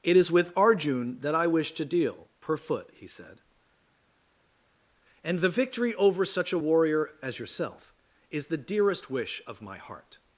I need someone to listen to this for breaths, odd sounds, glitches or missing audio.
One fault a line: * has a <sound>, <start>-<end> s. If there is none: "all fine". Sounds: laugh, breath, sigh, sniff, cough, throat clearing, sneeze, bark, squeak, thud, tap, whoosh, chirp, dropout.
all fine